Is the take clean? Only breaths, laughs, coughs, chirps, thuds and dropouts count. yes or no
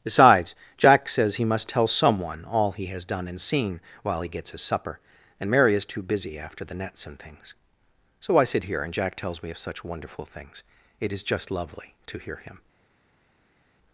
yes